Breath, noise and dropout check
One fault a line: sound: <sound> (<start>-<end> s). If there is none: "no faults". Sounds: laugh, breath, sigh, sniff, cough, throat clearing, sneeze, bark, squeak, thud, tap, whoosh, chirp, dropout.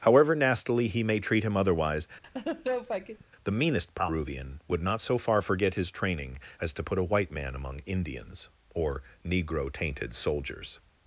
sound: laugh (2.2-3.2 s)